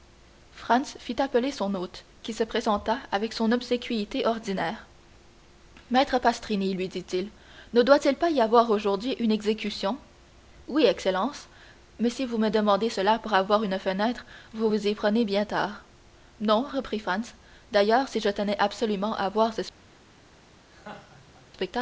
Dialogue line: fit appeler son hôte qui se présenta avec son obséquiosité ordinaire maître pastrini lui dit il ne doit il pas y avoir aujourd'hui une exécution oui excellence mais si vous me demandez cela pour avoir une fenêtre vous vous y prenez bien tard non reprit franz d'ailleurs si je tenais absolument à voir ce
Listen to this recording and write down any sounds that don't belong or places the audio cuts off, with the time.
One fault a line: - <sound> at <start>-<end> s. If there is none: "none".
- laugh at 20.7-21.5 s